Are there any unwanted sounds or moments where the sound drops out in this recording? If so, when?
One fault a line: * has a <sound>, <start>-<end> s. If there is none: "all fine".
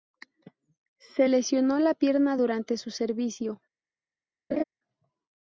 * has a laugh, 4.5-4.6 s